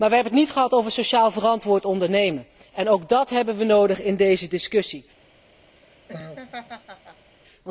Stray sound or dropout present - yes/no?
yes